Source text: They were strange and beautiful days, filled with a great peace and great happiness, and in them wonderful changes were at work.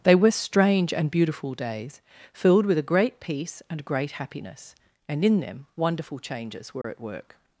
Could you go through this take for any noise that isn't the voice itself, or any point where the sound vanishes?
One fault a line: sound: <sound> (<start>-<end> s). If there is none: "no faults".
sound: dropout (6.8-6.8 s)